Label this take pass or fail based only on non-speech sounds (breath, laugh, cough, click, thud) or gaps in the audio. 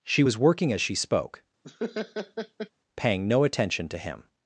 fail